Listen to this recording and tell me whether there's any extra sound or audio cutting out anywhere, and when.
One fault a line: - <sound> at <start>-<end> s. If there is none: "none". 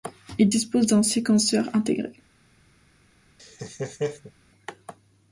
- laugh at 3.4-4.3 s